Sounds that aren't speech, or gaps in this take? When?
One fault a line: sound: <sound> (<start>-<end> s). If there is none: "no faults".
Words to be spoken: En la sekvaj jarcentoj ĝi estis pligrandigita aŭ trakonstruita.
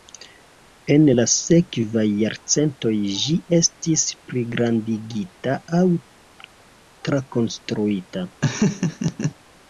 sound: laugh (8.4-9.3 s)